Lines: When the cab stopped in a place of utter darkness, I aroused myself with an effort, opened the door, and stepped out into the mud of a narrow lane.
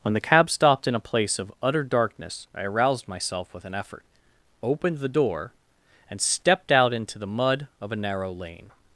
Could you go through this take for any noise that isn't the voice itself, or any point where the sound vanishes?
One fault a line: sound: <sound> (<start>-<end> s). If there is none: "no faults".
no faults